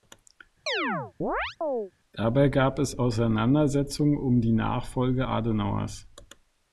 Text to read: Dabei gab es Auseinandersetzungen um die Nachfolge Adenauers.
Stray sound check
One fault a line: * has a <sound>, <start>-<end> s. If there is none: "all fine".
* has a chirp, 0.7-1.9 s